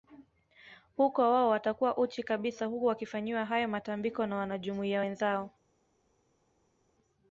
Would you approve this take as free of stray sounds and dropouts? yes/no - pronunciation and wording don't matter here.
yes